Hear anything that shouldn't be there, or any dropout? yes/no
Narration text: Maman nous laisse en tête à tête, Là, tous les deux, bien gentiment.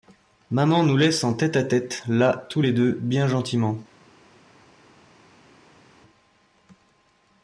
no